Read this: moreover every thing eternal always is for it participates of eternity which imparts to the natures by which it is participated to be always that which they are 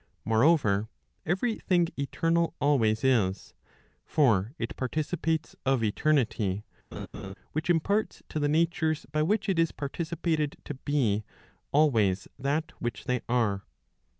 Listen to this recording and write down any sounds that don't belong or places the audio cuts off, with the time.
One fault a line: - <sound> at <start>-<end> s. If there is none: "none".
- laugh at 6.9-7.3 s